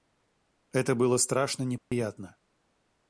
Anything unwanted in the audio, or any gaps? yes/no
yes